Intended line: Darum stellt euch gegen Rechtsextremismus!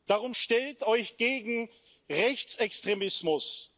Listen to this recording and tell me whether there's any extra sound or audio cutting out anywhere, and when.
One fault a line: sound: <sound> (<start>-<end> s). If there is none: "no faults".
no faults